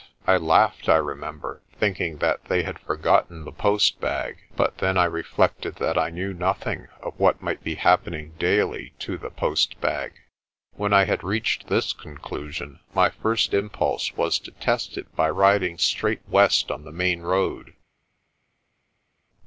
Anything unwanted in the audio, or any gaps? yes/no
no